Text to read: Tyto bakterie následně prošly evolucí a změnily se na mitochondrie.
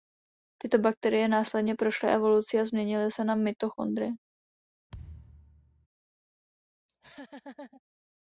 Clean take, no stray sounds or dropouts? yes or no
no